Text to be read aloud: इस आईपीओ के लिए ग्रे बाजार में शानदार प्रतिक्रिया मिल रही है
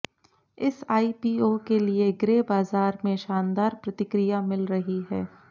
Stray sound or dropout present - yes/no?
no